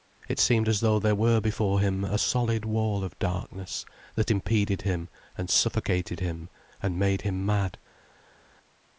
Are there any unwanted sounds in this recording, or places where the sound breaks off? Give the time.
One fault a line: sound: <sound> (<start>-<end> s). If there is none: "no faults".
no faults